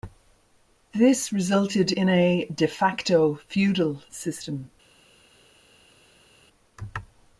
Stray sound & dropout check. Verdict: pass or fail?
pass